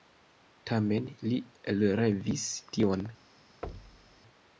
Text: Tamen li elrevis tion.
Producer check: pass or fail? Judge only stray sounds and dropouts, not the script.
fail